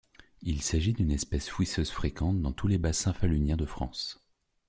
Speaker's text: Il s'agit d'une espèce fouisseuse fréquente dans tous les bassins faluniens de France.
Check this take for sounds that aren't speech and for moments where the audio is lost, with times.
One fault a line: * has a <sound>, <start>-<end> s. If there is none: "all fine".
all fine